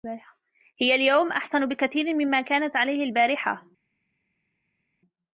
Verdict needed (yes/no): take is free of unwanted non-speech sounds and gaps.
yes